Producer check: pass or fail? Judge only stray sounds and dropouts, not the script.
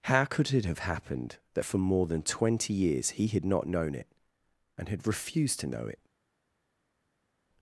pass